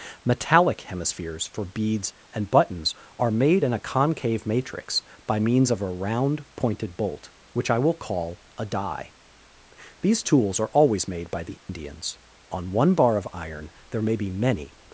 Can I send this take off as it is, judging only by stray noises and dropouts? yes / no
no